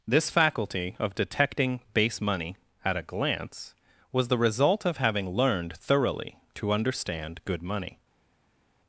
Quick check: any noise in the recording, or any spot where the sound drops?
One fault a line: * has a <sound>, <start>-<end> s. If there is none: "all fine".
all fine